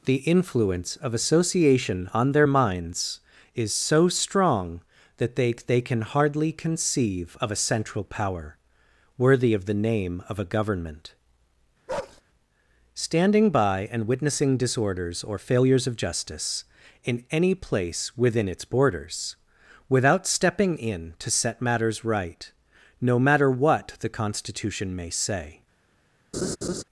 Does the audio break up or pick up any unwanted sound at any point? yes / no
yes